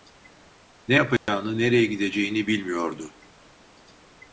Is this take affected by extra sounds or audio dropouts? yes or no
yes